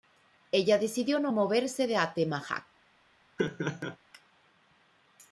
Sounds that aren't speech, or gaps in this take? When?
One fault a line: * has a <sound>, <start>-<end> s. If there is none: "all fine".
* has a laugh, 3.4-4.0 s